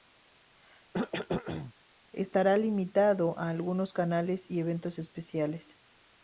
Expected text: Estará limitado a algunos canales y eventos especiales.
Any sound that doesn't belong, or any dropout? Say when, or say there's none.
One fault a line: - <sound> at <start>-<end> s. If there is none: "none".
- cough at 0.9-1.7 s